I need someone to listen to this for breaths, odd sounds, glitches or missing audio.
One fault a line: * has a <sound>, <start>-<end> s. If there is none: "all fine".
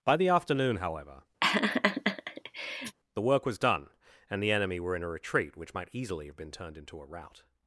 * has a laugh, 1.4-3.0 s